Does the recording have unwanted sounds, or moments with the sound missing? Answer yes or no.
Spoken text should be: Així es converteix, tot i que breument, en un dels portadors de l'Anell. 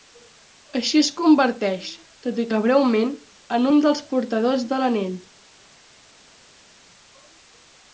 no